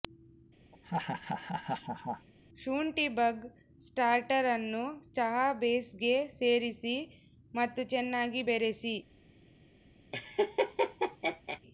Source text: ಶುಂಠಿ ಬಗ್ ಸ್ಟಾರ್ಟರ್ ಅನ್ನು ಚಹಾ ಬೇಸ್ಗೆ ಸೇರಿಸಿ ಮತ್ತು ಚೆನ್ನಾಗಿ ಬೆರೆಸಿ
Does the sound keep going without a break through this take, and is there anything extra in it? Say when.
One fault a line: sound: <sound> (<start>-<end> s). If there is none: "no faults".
sound: laugh (0.7-2.3 s)
sound: laugh (10.1-11.6 s)